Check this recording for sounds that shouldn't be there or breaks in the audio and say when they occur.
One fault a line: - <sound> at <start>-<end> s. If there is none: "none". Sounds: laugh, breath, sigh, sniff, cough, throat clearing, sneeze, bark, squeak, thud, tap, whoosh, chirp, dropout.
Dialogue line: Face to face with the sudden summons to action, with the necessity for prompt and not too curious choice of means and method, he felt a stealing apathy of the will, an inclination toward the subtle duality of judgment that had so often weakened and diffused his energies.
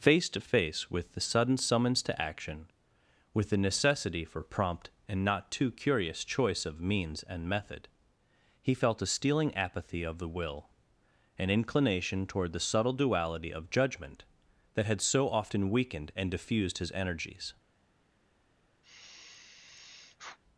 - sigh at 18.8-20.4 s